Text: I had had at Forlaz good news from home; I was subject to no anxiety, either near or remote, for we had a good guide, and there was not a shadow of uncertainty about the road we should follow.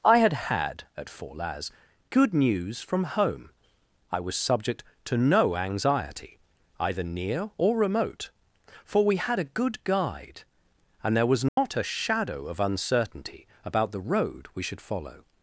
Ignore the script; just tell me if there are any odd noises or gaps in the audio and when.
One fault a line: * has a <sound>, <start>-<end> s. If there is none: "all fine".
* has a dropout, 11.5-11.6 s